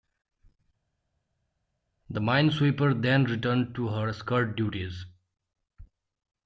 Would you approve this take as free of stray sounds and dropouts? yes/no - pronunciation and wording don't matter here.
yes